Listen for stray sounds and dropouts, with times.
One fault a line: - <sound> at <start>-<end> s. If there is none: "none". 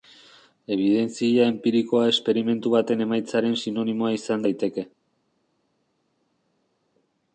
none